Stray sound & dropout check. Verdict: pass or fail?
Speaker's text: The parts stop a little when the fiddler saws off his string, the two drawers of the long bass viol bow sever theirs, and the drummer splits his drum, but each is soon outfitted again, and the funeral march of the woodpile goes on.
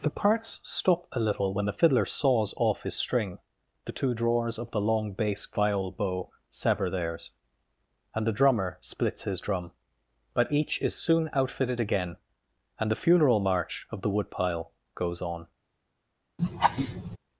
fail